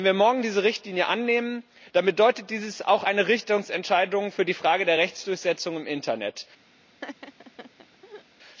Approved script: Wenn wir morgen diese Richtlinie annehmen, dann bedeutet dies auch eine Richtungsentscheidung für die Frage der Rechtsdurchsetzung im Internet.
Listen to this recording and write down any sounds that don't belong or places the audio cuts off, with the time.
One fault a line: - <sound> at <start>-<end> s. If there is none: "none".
- laugh at 7.0-8.2 s